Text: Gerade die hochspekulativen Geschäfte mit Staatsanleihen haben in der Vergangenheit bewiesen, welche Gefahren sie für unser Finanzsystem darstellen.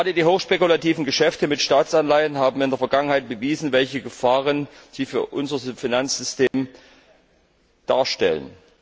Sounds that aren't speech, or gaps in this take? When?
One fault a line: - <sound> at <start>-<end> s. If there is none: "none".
- dropout at 6.5-6.5 s